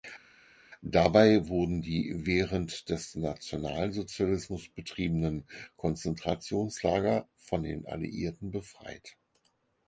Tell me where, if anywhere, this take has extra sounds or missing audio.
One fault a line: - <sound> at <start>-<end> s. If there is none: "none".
none